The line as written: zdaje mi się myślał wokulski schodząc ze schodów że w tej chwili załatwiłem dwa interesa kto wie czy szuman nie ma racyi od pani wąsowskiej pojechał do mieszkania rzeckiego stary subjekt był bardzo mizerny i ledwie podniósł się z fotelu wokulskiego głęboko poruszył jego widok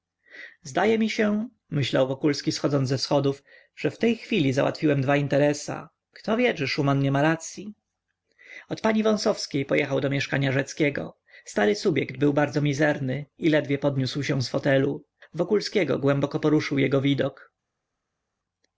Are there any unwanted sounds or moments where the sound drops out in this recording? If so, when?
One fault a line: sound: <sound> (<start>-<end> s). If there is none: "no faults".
no faults